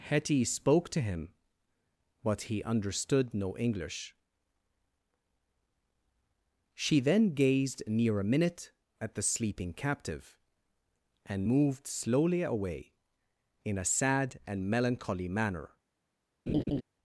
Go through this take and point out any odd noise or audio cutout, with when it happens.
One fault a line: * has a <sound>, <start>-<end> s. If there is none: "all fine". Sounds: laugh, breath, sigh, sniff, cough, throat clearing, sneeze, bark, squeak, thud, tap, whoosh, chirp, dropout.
* has a laugh, 16.5-16.8 s